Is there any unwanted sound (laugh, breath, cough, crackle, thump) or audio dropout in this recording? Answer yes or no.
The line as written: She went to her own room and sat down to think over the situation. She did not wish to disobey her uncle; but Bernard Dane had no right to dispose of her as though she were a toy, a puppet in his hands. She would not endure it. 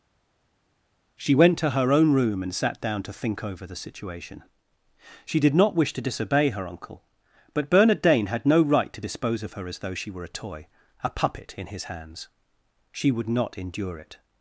no